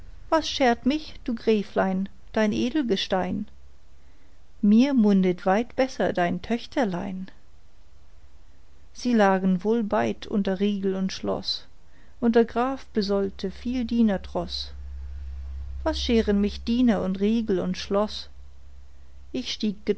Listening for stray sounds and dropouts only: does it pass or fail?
pass